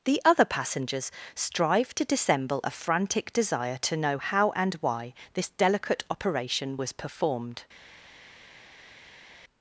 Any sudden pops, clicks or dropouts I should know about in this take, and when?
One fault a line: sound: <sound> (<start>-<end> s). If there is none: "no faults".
no faults